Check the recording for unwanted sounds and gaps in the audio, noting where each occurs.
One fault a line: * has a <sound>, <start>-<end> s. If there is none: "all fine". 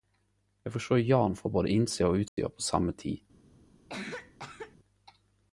* has a dropout, 2.3-2.4 s
* has a cough, 3.9-4.8 s